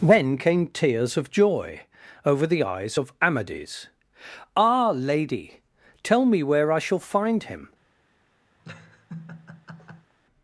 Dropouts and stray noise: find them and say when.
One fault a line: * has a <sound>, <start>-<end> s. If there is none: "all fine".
* has a laugh, 8.6-10.1 s